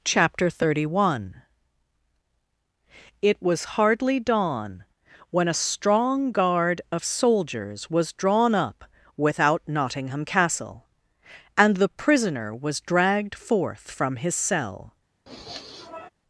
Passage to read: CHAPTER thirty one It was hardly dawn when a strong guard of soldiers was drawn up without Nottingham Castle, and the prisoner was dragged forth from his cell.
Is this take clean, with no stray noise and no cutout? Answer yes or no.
no